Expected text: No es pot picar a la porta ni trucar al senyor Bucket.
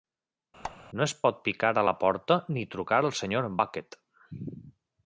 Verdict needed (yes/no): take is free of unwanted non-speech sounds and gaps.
no